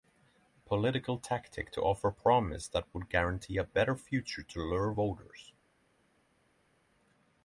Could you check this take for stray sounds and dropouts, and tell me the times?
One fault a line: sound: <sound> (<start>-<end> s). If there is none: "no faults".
no faults